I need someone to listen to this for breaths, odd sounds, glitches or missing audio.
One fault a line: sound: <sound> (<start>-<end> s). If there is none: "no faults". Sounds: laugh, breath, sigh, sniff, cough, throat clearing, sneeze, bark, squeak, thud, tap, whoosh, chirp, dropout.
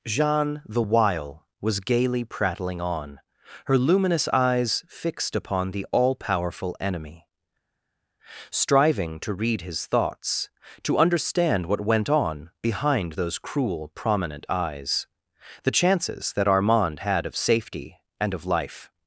no faults